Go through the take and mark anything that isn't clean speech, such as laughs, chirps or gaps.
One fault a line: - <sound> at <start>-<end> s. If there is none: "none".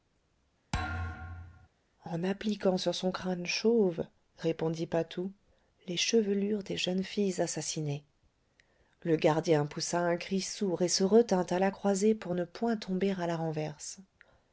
- thud at 0.7-1.7 s